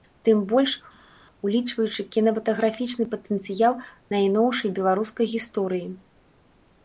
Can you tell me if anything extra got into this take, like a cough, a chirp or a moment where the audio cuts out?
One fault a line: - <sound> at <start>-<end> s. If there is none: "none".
none